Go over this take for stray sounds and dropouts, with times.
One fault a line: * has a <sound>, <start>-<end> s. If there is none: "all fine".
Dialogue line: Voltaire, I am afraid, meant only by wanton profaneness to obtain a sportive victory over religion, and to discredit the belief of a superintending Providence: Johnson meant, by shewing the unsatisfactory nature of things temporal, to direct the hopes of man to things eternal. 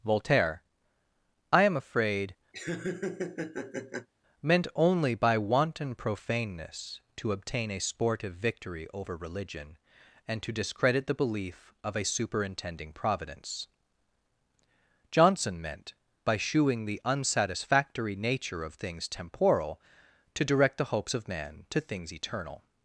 * has a laugh, 2.5-4.1 s